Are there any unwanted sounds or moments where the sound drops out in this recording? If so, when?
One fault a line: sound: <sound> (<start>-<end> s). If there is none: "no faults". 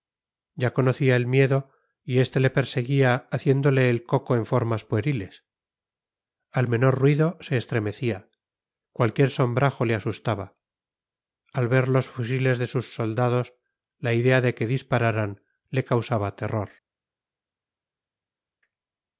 no faults